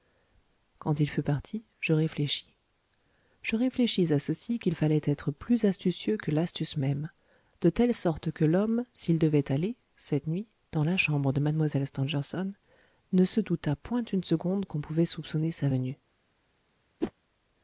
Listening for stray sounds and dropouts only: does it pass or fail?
fail